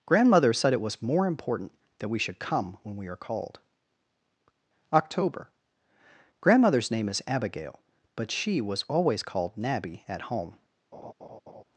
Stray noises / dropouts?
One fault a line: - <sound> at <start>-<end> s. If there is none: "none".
- laugh at 10.9-11.6 s